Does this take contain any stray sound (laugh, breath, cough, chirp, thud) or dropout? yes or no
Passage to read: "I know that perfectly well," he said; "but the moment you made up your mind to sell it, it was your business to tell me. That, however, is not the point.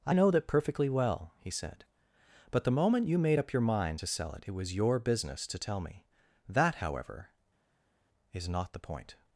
no